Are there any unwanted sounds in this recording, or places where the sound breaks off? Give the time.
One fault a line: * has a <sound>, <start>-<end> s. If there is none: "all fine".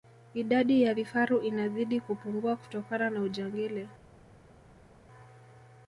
all fine